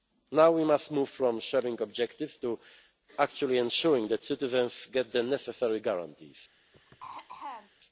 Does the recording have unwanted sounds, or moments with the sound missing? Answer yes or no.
yes